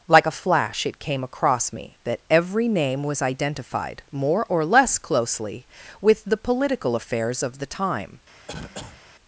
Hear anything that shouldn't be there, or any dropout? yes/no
yes